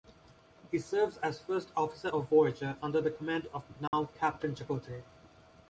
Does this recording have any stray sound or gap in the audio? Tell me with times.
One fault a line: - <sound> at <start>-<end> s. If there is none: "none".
- dropout at 3.9-3.9 s